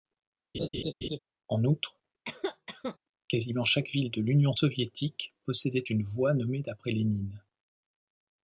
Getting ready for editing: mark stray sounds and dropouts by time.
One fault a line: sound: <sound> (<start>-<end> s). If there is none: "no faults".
sound: laugh (0.5-1.2 s)
sound: cough (2.2-3.0 s)